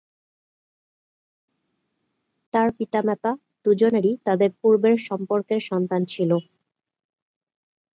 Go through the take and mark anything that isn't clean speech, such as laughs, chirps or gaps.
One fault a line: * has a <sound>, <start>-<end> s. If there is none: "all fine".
all fine